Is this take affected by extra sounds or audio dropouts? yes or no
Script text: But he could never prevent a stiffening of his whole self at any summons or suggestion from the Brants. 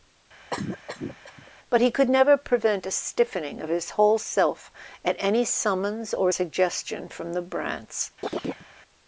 yes